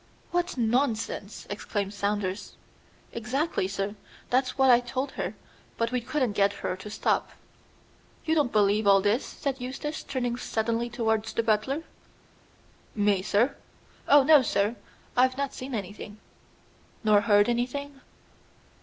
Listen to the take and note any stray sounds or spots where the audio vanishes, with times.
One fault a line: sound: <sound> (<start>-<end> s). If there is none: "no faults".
no faults